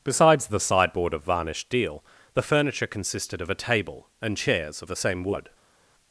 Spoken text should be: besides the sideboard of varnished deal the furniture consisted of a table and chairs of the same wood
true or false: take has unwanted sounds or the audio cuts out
false